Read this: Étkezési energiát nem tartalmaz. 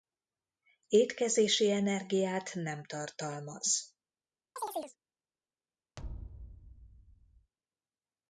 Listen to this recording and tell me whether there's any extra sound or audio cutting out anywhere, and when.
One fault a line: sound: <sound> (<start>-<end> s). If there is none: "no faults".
sound: chirp (4.6-5.0 s)
sound: thud (6.0-7.5 s)